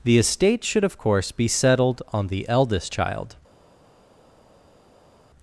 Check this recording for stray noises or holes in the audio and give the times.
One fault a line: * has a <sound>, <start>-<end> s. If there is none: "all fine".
all fine